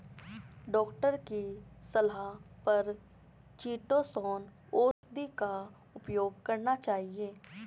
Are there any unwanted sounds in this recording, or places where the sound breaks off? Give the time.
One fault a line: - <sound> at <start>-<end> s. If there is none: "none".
- dropout at 4.9-5.0 s